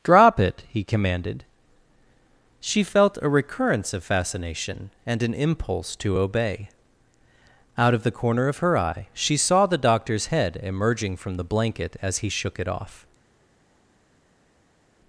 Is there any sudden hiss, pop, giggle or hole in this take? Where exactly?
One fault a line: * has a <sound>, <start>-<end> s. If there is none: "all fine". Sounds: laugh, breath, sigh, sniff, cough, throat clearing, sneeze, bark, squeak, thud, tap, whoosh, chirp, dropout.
all fine